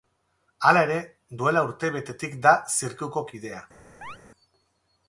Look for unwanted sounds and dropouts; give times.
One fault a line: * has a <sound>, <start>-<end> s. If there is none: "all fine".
* has a chirp, 4.0-4.2 s